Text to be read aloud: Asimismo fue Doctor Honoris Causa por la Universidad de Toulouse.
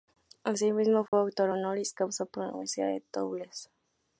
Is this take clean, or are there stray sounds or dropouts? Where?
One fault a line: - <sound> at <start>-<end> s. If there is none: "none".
- dropout at 1.1-1.1 s